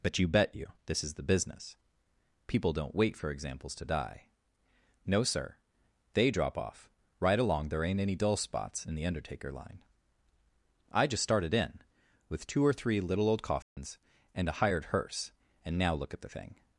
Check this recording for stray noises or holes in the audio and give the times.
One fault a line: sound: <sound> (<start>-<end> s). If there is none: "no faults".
sound: dropout (13.6-13.8 s)